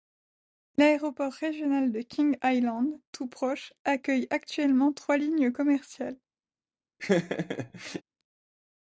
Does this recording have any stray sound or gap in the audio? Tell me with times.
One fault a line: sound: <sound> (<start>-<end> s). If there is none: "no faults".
sound: laugh (7.0-8.0 s)